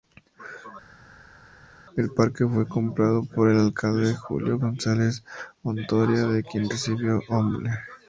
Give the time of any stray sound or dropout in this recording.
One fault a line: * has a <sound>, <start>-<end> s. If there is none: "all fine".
all fine